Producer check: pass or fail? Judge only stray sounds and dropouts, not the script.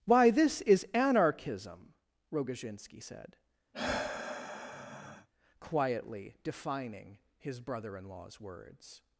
fail